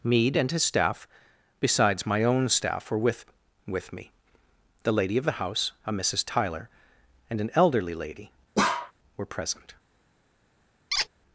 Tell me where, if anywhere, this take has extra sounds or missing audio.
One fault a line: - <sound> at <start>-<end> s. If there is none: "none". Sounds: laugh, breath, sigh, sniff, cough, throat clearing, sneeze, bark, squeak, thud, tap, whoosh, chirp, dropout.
- bark at 8.6-8.9 s
- squeak at 10.9-11.1 s